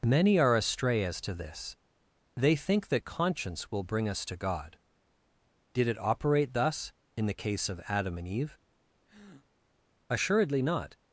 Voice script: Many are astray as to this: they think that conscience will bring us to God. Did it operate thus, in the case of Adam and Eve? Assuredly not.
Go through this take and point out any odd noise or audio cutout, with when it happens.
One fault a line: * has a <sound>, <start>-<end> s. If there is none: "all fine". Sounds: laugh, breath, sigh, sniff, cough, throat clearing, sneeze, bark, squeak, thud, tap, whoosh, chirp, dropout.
* has a breath, 9.1-9.5 s